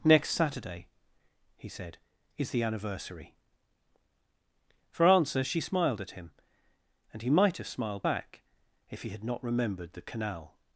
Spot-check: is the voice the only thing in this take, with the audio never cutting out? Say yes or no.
yes